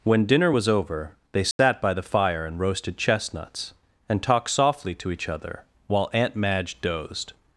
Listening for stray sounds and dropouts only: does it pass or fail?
fail